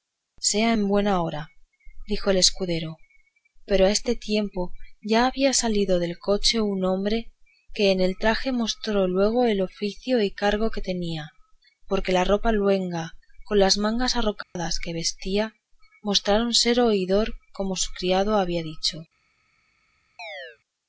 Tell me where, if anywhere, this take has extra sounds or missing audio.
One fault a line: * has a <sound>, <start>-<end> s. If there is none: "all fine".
* has a dropout, 14.4-14.6 s
* has a chirp, 20.2-20.6 s